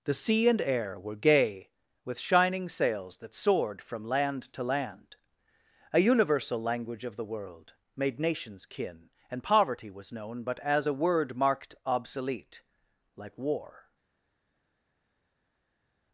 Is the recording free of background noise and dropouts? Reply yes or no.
yes